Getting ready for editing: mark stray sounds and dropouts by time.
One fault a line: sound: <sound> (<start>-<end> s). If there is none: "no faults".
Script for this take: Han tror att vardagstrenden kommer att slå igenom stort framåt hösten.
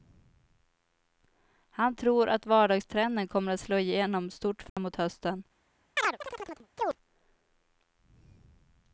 sound: dropout (4.7-4.8 s)
sound: chirp (6.0-7.0 s)